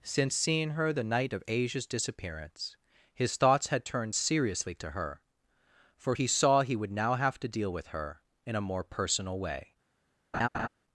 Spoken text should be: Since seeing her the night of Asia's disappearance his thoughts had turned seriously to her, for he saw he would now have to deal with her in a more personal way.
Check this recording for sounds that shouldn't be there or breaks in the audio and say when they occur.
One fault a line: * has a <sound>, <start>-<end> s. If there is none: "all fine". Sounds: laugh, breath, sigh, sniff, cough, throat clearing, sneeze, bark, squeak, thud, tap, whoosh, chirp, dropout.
* has a laugh, 10.3-10.7 s